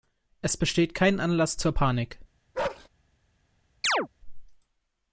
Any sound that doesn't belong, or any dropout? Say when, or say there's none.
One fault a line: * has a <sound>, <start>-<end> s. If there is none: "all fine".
* has a bark, 2.5-2.9 s
* has a chirp, 3.8-4.1 s